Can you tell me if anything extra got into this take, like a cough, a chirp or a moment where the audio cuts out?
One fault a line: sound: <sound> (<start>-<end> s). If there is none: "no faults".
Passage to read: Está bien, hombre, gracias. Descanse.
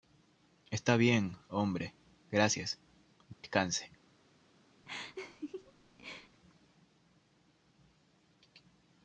sound: dropout (3.3-3.4 s)
sound: laugh (4.8-6.4 s)